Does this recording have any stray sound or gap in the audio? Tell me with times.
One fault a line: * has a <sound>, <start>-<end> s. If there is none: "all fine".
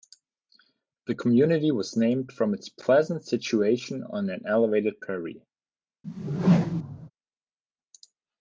* has a whoosh, 6.0-7.1 s